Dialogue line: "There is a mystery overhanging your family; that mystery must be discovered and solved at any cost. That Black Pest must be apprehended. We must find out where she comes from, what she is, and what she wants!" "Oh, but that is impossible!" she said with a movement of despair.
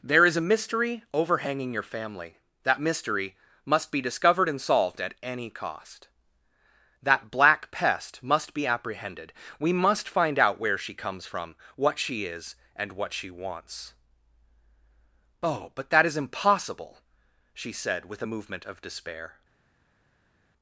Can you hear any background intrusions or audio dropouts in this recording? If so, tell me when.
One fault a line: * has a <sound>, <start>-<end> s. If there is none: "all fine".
all fine